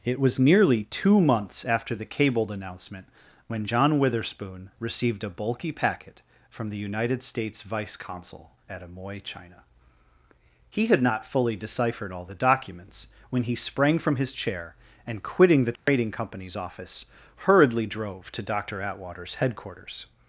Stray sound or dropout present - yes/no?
yes